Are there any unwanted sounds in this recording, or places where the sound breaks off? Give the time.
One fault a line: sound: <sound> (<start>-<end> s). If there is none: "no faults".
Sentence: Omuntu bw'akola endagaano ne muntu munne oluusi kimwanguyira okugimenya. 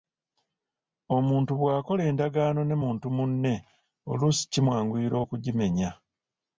no faults